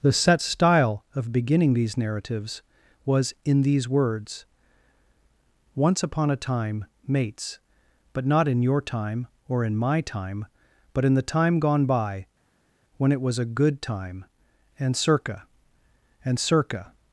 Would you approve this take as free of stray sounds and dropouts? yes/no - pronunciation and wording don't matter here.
yes